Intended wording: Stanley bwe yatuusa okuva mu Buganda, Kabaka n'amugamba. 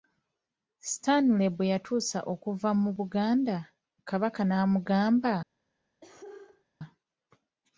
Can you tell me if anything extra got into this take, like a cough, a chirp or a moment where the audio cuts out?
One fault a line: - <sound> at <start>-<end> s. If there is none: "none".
- cough at 6.0-6.6 s